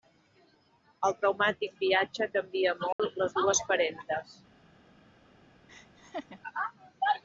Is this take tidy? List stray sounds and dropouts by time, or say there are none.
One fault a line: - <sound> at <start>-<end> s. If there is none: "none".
- dropout at 2.9-3.0 s
- laugh at 5.7-6.4 s